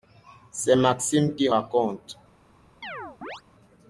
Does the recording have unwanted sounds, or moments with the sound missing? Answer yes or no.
yes